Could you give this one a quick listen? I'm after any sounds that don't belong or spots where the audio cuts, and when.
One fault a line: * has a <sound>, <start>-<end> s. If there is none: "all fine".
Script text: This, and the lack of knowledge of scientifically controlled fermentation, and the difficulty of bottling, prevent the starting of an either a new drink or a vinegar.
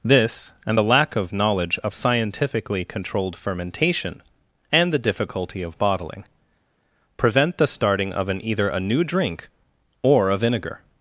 all fine